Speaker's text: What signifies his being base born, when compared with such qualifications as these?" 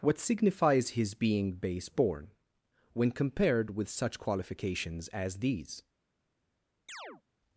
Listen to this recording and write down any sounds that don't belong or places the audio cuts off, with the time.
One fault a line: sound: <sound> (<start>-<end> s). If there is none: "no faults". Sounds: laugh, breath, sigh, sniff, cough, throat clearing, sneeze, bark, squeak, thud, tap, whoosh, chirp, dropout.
sound: chirp (6.9-7.2 s)